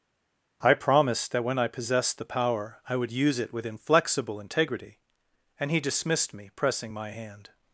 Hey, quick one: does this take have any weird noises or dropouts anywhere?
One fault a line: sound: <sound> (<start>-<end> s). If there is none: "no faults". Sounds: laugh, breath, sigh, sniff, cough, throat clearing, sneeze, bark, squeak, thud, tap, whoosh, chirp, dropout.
no faults